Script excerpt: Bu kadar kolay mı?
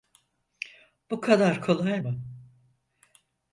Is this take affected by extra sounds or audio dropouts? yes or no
no